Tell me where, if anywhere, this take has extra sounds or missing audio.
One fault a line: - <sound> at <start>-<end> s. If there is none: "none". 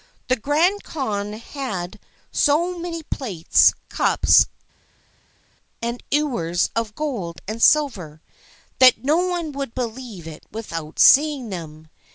none